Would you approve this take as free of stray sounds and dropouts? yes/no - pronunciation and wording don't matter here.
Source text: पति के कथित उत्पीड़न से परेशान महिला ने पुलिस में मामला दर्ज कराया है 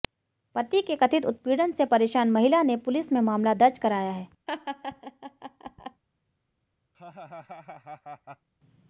no